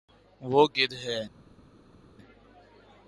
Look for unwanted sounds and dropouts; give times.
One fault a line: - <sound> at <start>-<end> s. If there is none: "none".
none